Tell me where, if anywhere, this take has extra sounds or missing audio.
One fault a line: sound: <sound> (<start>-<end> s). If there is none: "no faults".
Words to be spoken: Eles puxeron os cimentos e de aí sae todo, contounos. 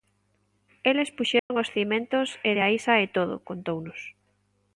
sound: dropout (1.4-1.5 s)